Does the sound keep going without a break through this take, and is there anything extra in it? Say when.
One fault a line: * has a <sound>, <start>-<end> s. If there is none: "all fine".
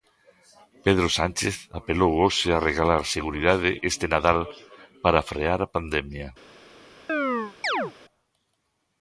* has a chirp, 7.1-7.9 s